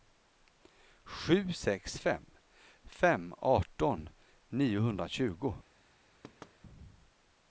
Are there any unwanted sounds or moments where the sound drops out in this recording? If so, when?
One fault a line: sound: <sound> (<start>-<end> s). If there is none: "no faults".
sound: thud (6.2-6.6 s)